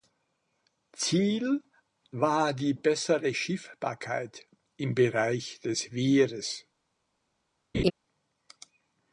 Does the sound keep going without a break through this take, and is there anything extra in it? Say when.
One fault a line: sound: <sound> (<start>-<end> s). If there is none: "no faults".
sound: laugh (7.7-7.9 s)